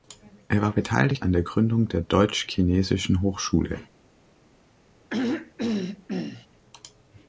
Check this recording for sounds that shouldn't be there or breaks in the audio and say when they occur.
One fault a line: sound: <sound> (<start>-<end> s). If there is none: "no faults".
sound: throat clearing (5.1-6.5 s)